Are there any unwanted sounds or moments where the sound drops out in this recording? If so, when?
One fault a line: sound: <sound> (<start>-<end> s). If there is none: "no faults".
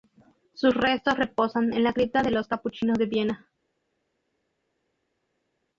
no faults